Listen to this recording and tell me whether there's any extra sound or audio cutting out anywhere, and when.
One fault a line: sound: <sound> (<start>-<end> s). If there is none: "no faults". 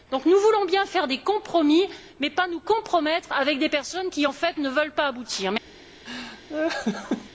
sound: laugh (6.1-7.3 s)